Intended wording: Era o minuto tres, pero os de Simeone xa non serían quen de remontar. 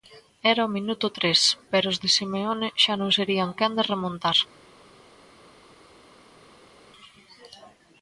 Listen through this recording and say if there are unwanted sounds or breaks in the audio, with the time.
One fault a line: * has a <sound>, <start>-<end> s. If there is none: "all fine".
all fine